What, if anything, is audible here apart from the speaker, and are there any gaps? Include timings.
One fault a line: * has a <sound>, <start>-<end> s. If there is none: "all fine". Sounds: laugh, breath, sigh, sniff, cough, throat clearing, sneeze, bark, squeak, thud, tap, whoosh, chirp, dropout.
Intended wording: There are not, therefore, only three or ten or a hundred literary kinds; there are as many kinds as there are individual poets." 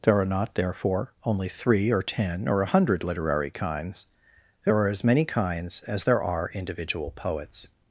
all fine